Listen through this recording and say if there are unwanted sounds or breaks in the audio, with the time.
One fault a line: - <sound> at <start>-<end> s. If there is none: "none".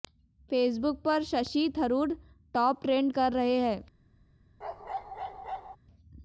- bark at 4.6-5.8 s